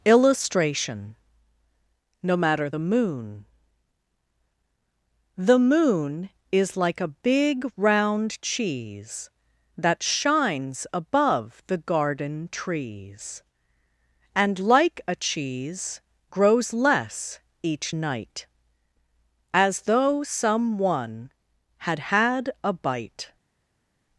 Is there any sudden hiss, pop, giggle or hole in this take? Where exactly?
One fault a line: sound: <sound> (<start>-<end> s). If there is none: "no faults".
no faults